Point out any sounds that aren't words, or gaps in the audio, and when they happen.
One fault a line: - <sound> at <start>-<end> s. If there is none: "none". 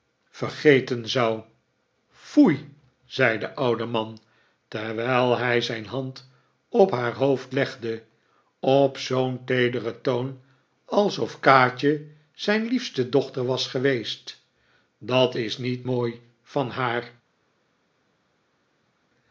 none